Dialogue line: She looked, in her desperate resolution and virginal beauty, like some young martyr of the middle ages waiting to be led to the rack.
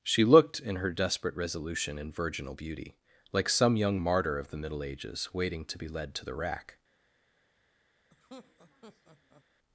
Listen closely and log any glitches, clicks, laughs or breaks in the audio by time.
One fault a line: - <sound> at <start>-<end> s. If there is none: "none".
- laugh at 8.1-9.4 s